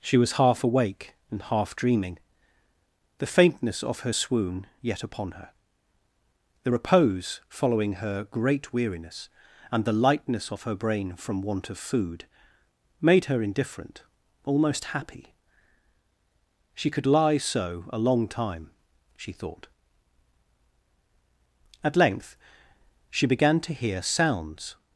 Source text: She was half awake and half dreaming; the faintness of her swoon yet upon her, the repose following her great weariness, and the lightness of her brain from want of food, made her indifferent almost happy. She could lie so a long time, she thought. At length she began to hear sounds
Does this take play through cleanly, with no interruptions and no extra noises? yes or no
yes